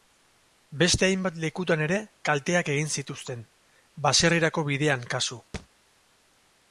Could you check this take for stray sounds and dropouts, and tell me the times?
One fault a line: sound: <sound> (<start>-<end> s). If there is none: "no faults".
sound: thud (5.5-5.7 s)